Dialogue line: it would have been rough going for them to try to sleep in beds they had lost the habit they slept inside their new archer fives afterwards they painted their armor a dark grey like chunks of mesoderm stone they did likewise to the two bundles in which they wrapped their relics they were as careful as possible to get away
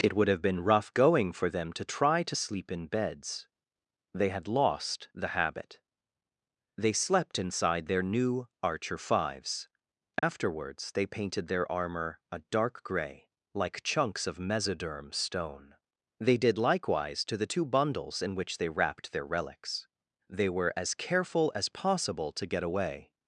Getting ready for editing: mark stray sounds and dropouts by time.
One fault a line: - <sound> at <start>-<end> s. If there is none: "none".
- dropout at 10.2-10.2 s